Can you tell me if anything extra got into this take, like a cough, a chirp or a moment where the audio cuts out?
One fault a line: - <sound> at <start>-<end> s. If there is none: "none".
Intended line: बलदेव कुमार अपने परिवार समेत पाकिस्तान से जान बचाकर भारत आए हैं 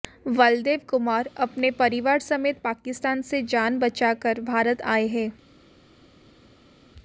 none